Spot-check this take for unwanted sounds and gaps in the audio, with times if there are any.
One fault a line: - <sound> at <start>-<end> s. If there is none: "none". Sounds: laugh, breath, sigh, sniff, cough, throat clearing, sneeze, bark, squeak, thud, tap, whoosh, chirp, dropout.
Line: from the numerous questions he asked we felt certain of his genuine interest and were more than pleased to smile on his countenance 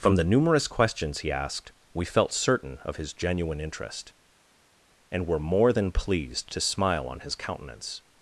none